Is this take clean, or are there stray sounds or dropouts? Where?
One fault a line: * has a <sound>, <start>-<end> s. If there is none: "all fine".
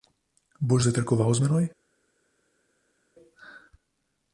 all fine